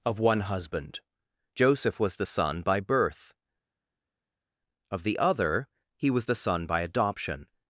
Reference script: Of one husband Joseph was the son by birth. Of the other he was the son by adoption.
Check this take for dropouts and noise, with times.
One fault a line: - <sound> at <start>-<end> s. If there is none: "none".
none